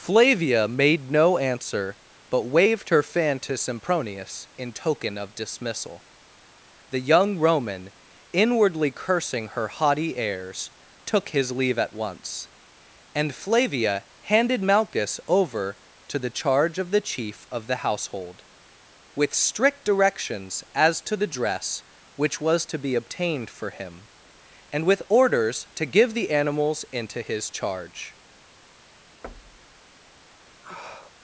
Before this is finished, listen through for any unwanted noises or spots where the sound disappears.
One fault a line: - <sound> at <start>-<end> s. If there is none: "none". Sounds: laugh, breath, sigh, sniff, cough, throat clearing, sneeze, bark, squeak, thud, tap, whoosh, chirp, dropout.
- thud at 29.2-29.8 s
- sniff at 30.6-31.1 s